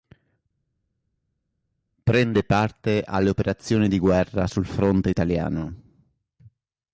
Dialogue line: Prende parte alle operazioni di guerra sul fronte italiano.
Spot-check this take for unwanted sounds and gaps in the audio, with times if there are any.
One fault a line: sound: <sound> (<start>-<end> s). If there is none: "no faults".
no faults